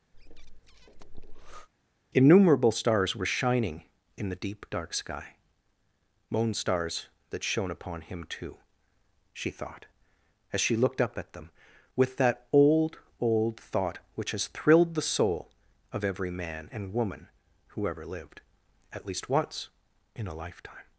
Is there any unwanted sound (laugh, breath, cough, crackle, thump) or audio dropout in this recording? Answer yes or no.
yes